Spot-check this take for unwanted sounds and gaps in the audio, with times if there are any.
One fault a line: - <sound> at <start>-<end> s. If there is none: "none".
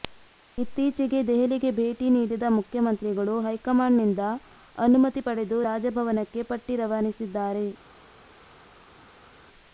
none